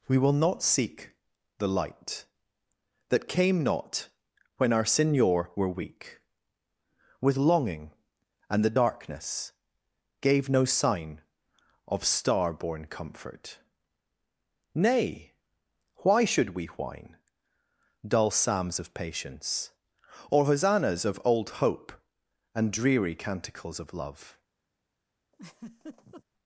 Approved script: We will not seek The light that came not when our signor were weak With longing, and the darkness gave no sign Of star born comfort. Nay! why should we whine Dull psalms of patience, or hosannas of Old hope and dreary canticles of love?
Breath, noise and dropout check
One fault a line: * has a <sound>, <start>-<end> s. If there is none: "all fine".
* has a laugh, 25.3-26.2 s